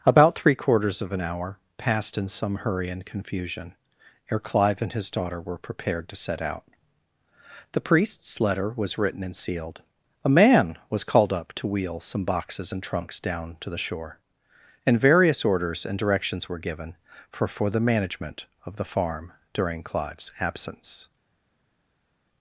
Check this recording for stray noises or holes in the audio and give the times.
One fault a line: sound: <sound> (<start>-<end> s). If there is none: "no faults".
no faults